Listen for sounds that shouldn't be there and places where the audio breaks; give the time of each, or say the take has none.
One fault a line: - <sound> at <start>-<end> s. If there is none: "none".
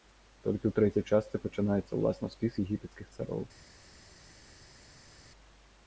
none